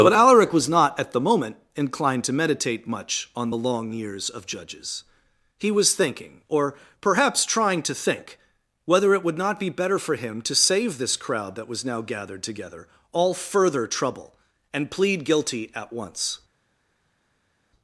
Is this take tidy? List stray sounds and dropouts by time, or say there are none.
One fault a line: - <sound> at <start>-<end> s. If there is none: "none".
none